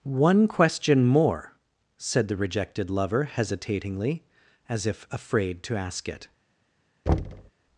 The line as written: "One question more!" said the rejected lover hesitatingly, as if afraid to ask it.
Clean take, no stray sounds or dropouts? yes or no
no